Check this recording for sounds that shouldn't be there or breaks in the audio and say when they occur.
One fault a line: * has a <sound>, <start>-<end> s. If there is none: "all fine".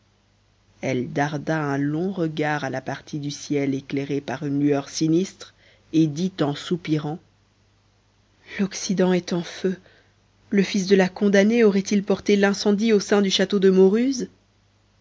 all fine